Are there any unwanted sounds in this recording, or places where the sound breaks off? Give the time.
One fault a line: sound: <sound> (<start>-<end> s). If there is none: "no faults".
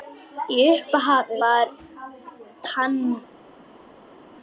no faults